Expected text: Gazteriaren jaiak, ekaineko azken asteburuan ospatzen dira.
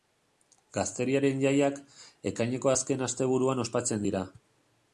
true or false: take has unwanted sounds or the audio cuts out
false